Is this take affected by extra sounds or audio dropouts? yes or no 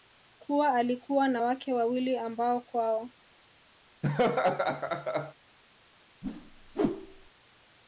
yes